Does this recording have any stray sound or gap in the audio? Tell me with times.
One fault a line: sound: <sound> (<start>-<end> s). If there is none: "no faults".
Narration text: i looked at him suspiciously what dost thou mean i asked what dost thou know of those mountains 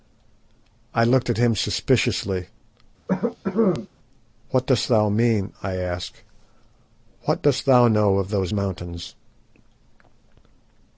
sound: cough (3.1-3.9 s)